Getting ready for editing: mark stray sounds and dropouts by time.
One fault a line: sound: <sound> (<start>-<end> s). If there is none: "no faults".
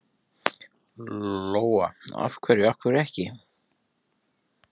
no faults